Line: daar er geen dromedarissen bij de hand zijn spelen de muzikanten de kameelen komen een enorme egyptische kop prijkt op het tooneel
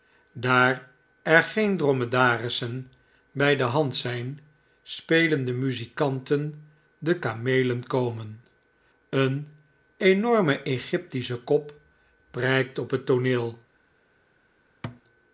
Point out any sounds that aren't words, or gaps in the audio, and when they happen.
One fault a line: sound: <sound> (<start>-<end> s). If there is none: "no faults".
sound: thud (14.8-15.0 s)